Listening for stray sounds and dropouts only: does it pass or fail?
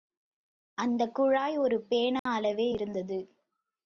fail